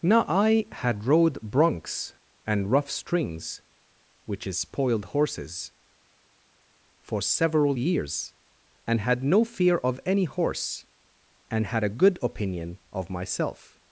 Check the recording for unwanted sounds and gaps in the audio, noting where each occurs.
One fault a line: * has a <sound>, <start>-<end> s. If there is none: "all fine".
all fine